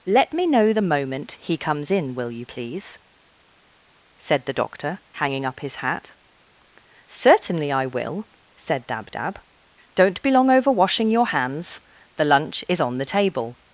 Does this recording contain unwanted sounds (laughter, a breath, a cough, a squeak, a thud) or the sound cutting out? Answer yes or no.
no